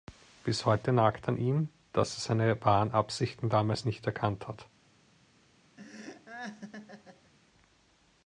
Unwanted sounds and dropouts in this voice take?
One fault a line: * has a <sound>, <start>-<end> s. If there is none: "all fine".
* has a laugh, 5.8-7.3 s